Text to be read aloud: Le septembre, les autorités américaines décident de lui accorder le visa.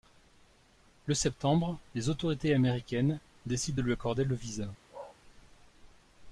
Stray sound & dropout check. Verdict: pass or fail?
fail